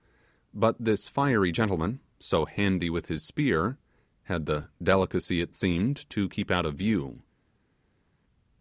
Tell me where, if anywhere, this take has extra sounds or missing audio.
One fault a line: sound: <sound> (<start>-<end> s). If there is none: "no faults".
no faults